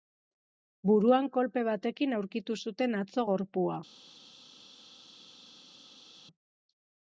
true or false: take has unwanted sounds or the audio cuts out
false